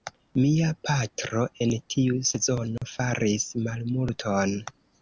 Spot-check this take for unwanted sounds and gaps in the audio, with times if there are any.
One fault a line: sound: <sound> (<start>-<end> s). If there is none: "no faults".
sound: dropout (2.8-2.8 s)